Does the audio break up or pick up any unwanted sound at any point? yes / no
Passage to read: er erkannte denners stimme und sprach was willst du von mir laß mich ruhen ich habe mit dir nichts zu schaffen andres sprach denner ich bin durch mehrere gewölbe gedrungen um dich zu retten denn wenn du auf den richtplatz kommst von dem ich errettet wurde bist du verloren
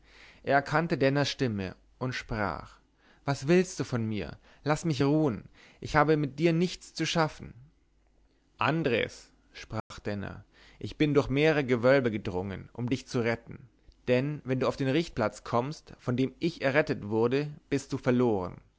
yes